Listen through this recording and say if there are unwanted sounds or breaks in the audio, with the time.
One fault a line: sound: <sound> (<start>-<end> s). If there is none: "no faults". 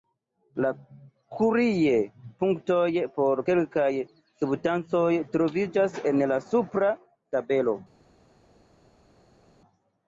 no faults